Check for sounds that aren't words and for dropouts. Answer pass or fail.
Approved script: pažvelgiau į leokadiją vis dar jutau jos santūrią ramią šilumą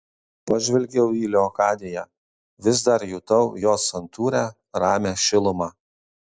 pass